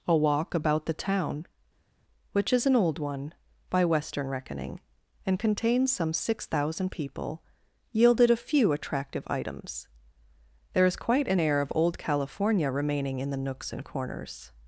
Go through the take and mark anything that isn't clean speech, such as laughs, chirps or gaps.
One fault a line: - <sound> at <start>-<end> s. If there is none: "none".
none